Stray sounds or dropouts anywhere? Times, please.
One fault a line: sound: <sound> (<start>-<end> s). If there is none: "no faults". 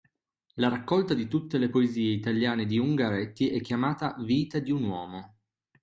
no faults